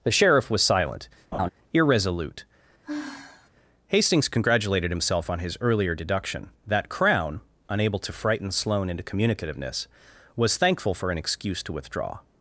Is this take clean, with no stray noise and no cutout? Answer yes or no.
no